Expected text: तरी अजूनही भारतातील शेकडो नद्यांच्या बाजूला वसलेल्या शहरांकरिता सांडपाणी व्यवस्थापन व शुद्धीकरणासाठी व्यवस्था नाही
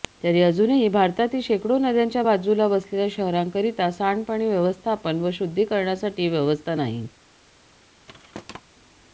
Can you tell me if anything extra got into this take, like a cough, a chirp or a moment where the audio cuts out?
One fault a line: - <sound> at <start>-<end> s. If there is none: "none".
- thud at 8.1-8.6 s